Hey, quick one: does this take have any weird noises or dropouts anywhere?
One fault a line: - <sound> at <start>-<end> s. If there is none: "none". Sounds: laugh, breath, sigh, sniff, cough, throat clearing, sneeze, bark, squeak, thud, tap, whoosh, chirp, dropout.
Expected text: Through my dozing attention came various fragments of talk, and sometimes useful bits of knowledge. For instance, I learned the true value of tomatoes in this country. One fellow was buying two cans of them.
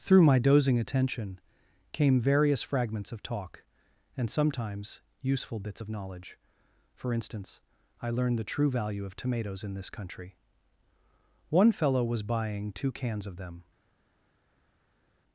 none